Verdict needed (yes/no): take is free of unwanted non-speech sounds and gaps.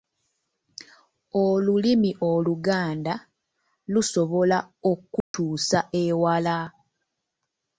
no